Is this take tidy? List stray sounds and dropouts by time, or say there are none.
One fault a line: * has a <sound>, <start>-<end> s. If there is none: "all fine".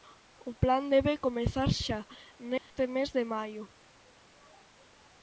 * has a dropout, 2.6-2.7 s